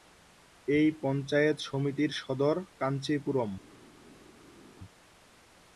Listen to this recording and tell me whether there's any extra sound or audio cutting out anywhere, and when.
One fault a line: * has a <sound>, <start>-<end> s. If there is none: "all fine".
all fine